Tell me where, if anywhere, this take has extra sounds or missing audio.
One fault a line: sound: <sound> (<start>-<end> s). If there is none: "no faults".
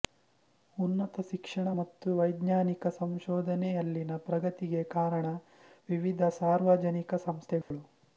sound: dropout (7.6-7.7 s)